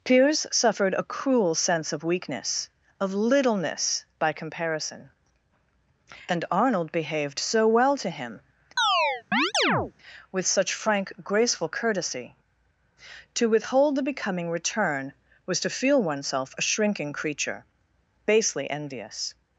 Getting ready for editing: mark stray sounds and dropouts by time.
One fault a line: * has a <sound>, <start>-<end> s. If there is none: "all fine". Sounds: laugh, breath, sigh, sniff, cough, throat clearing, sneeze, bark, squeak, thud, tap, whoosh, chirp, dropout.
* has a chirp, 8.8-9.9 s